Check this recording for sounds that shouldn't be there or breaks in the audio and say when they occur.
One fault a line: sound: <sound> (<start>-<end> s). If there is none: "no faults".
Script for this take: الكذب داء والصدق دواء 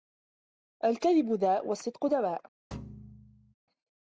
sound: thud (2.7-3.5 s)